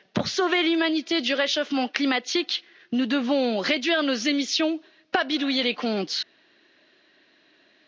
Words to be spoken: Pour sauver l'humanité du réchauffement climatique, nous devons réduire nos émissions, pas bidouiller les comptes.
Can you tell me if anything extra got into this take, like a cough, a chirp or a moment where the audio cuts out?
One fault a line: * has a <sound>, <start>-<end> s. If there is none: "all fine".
all fine